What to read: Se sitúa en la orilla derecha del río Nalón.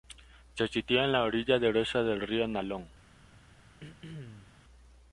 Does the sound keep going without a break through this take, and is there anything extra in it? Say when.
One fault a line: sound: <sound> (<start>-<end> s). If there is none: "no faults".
sound: throat clearing (3.8-4.5 s)